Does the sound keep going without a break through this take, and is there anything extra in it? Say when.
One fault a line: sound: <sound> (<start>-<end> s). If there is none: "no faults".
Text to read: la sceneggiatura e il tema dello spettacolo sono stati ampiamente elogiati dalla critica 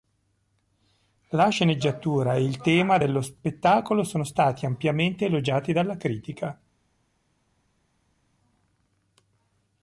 no faults